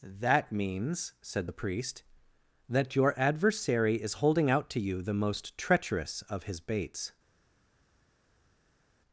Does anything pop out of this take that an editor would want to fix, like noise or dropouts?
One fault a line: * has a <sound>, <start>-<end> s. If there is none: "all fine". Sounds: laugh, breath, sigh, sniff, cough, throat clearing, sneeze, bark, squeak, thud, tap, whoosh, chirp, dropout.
all fine